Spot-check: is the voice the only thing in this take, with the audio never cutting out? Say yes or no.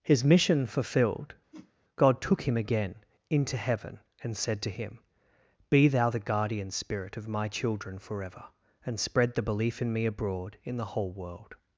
no